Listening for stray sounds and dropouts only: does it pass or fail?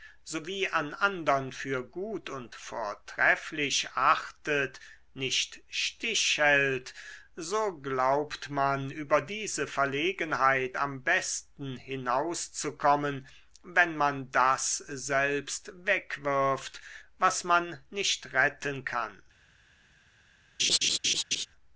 fail